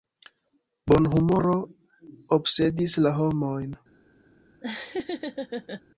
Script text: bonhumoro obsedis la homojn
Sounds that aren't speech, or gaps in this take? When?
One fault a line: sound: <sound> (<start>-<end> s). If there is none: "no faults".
sound: laugh (4.6-5.8 s)